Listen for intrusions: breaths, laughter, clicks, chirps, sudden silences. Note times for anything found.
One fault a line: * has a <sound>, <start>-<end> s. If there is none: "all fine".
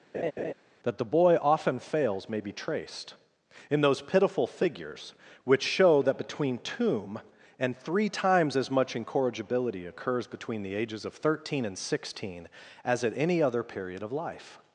* has a laugh, 0.1-0.5 s